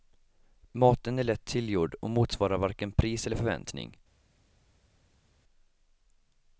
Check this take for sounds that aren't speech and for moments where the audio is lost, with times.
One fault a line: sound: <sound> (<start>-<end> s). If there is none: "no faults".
no faults